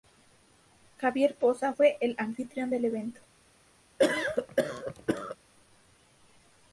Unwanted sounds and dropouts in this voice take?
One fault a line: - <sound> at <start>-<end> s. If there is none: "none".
- cough at 4.0-5.4 s